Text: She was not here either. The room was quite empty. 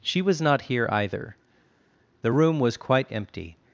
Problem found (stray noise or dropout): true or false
false